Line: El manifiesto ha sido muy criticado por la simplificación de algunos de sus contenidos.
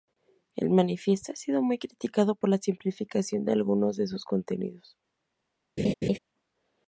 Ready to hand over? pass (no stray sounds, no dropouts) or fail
fail